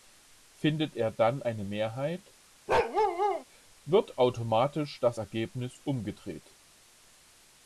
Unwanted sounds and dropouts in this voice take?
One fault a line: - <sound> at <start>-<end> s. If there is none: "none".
- bark at 2.7-3.4 s